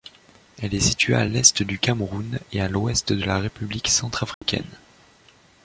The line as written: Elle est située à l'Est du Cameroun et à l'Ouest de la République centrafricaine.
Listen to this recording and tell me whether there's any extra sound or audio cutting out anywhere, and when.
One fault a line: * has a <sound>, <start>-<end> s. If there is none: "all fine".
* has a dropout, 4.3-4.4 s